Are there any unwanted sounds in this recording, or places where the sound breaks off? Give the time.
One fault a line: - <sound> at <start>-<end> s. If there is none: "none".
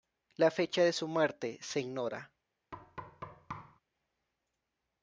- thud at 2.7-3.8 s